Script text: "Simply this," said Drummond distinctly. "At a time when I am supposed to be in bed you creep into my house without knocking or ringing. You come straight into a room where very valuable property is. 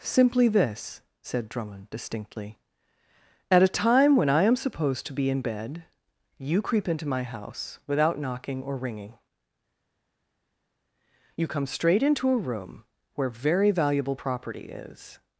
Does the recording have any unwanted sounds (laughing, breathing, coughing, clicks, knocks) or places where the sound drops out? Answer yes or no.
no